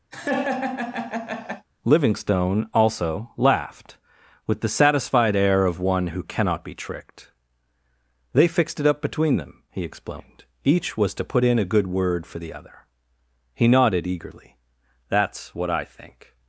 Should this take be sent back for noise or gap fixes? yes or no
yes